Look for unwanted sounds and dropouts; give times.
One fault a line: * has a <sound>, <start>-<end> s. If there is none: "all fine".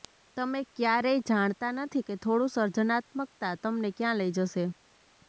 all fine